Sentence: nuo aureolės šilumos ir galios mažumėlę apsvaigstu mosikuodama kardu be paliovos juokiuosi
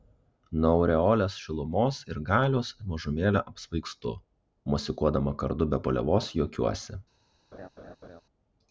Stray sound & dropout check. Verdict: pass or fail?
fail